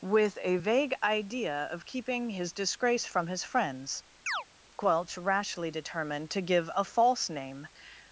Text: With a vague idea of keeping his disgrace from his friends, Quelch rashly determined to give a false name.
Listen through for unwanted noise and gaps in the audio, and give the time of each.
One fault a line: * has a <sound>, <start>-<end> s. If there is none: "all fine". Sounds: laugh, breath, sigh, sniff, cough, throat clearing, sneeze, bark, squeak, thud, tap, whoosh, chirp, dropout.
* has a chirp, 4.3-4.4 s